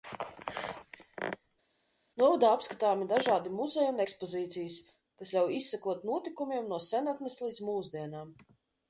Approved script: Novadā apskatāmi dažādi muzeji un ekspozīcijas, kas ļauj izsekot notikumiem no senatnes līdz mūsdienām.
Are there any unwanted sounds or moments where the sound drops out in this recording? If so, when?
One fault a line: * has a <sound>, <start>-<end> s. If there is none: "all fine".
all fine